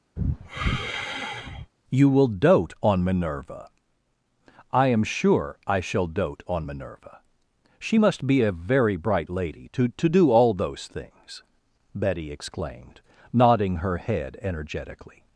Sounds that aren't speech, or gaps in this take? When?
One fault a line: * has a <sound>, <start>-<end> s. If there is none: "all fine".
* has a sigh, 0.2-1.7 s